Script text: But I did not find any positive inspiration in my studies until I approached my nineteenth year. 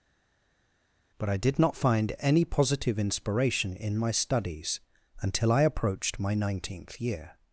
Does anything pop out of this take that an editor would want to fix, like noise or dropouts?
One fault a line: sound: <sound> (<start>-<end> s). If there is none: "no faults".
no faults